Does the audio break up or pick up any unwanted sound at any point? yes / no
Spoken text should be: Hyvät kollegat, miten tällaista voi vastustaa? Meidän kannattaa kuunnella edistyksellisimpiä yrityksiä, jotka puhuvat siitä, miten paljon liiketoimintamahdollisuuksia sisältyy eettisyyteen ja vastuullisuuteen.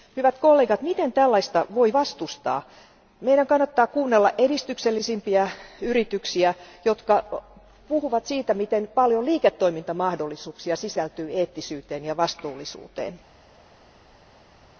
no